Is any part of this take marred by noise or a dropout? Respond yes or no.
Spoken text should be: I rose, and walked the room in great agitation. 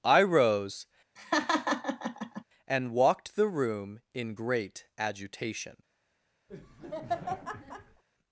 yes